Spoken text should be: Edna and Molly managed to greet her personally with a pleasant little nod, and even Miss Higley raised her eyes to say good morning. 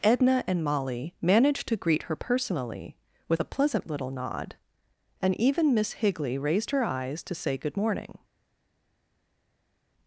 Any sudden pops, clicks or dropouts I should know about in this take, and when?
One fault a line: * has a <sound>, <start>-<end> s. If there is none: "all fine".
all fine